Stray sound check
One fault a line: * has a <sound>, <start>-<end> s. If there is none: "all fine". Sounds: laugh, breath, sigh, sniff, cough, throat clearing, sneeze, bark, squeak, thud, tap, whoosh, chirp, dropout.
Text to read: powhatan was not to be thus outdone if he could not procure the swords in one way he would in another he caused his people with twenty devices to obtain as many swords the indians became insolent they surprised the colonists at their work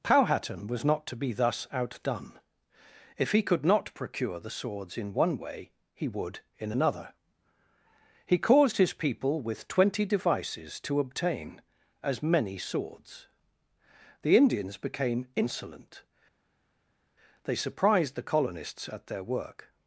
all fine